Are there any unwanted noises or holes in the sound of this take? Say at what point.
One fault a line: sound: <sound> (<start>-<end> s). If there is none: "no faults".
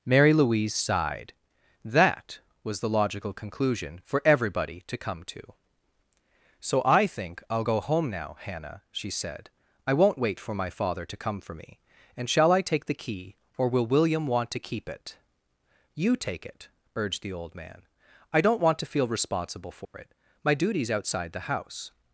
sound: dropout (19.9-19.9 s)